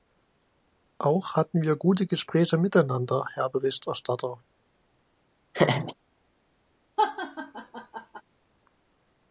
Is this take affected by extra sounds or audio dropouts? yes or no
yes